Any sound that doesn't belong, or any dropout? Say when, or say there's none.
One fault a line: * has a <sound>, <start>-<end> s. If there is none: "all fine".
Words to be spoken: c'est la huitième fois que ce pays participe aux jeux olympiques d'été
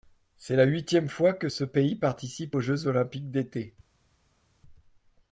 all fine